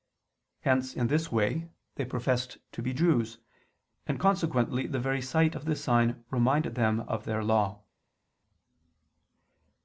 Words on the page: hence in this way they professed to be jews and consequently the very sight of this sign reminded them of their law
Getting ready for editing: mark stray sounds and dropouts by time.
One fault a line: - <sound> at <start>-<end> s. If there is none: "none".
none